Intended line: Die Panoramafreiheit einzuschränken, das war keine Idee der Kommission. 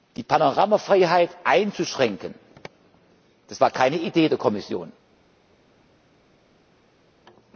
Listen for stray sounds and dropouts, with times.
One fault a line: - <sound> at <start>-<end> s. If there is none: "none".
none